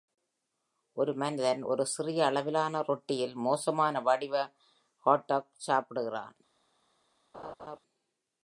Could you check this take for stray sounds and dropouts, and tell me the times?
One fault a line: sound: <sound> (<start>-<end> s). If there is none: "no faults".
sound: laugh (7.3-7.8 s)